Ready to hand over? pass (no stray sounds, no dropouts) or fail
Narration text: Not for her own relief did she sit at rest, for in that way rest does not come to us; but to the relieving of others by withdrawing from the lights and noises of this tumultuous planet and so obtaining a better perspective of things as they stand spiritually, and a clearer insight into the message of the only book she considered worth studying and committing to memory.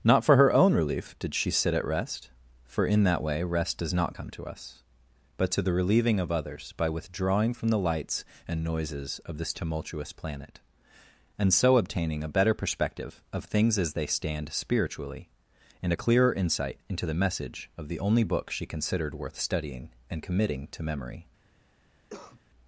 fail